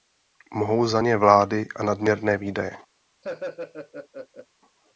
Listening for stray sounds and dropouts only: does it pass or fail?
fail